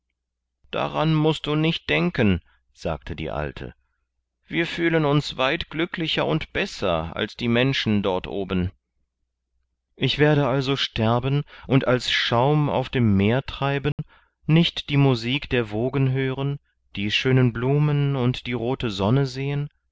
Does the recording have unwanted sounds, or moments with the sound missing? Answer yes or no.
yes